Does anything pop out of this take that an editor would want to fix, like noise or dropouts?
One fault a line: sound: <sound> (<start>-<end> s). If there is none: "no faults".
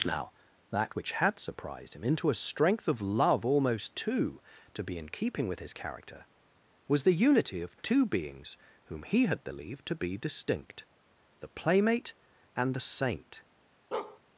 sound: bark (13.9-14.2 s)